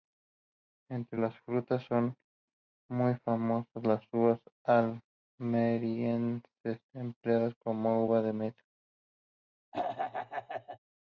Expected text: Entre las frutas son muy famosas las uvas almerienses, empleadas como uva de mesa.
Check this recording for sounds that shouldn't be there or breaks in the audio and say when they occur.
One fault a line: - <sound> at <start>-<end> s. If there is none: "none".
- throat clearing at 9.7-10.8 s